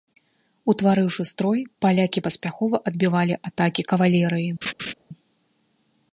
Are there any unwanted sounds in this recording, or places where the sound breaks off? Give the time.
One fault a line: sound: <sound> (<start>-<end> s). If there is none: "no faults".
sound: laugh (4.6-4.9 s)